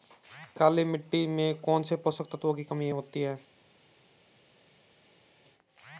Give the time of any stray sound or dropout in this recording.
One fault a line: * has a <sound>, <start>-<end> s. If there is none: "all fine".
all fine